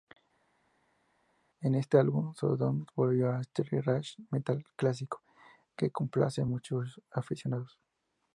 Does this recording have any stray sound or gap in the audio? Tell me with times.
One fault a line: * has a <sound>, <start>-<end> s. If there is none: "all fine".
all fine